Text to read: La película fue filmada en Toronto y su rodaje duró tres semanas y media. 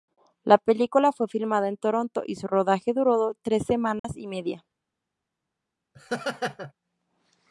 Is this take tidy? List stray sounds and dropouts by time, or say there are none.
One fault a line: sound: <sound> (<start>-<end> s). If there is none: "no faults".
sound: dropout (4.0-4.0 s)
sound: laugh (5.9-6.7 s)